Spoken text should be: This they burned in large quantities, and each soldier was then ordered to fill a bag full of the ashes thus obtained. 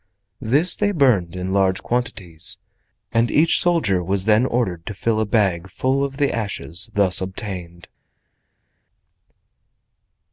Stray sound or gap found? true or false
false